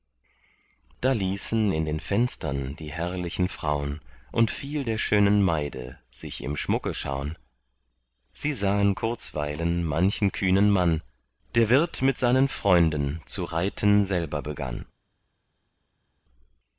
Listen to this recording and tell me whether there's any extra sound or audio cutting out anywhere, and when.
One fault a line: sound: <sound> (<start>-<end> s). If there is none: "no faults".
no faults